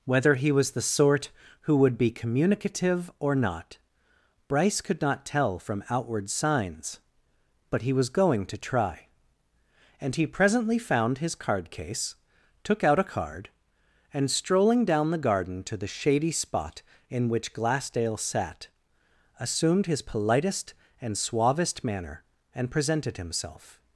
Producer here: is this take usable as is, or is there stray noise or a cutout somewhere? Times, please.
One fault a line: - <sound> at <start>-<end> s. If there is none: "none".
none